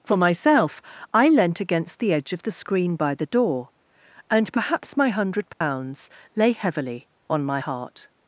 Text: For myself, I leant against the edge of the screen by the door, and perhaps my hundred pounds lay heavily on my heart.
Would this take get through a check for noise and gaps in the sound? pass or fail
fail